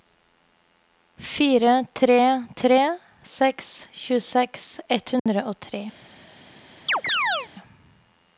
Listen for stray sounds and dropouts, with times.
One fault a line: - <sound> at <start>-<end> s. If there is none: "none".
- dropout at 5.2-5.3 s
- chirp at 6.9-7.5 s